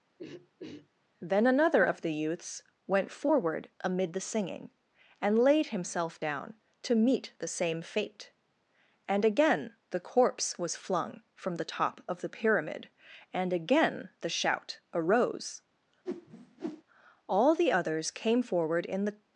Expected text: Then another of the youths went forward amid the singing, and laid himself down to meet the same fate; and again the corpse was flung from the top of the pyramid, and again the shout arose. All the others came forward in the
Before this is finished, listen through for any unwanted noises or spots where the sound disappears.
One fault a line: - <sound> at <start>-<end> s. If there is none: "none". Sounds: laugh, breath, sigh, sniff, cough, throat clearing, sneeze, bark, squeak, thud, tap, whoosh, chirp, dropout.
- throat clearing at 0.2-0.9 s
- whoosh at 16.1-16.8 s